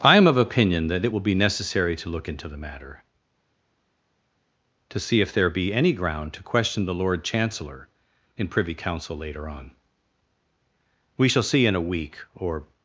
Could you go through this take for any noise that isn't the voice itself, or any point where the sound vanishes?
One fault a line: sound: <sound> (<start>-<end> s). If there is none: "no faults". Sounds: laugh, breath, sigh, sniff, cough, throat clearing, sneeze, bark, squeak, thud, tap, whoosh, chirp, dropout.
no faults